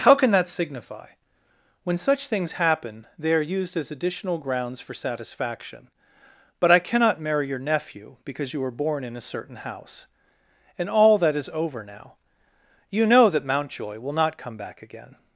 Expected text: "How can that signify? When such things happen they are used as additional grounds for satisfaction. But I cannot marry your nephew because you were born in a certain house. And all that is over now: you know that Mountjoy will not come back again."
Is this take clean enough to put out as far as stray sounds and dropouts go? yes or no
yes